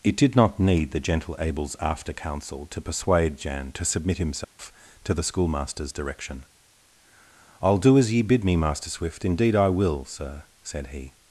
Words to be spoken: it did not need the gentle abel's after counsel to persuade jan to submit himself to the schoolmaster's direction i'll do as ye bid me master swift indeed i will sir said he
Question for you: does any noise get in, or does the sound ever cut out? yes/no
yes